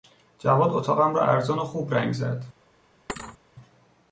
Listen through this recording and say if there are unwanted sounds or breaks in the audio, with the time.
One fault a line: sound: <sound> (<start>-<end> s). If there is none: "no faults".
sound: thud (3.1-3.4 s)